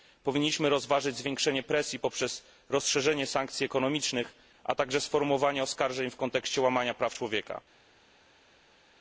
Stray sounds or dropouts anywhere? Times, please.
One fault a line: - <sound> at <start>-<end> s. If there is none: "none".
none